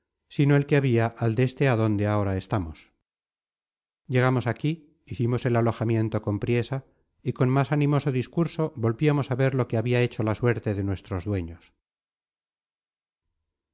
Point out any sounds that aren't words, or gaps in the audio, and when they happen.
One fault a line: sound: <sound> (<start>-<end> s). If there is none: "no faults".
no faults